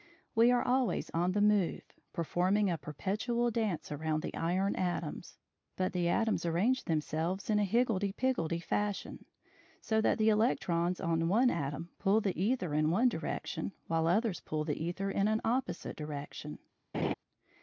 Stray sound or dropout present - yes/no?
yes